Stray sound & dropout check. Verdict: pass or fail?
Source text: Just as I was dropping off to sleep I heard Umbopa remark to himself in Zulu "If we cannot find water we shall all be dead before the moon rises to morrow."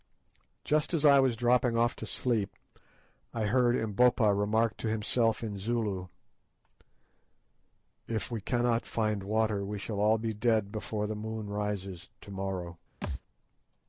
fail